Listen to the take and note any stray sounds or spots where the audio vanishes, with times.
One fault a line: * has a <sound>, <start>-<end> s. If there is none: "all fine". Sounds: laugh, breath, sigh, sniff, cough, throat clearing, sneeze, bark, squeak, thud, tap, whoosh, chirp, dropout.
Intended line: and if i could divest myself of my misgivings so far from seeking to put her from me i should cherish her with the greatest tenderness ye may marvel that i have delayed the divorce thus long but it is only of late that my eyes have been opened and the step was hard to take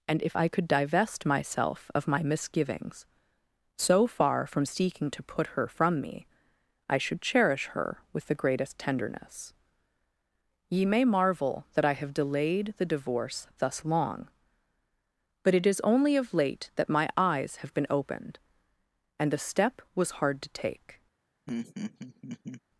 * has a laugh, 21.5-22.6 s